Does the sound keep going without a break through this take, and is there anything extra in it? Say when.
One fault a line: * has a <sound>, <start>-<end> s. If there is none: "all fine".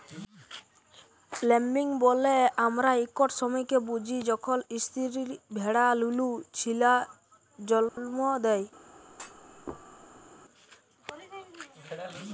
* has a dropout, 7.9-8.0 s
* has a thud, 9.1-10.3 s